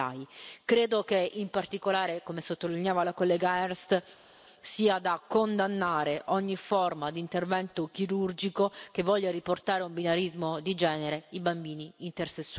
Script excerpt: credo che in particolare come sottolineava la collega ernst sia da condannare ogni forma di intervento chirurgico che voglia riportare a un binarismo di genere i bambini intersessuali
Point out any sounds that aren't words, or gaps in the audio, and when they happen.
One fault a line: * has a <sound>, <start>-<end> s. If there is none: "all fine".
all fine